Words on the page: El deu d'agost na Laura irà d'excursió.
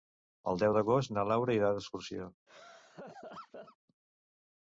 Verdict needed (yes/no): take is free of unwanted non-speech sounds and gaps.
no